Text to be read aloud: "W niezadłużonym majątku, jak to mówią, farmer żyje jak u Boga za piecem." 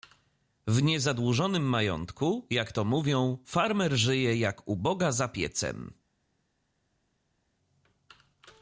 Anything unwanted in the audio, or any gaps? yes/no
no